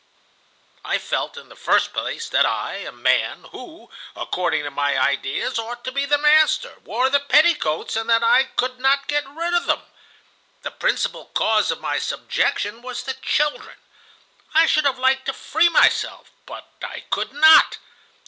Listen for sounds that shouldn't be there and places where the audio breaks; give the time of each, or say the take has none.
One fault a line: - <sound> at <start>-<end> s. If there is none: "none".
none